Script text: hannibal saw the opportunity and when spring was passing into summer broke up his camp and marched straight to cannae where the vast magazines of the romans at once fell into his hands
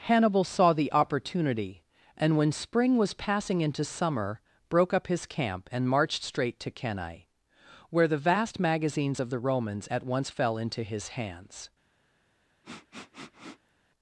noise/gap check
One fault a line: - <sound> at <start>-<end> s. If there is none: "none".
- sniff at 12.6-13.7 s